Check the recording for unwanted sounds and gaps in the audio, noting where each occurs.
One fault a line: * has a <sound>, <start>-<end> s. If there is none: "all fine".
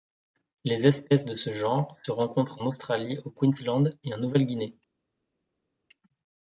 all fine